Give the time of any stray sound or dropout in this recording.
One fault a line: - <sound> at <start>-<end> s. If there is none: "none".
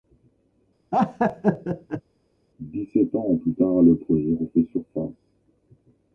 - laugh at 0.9-2.0 s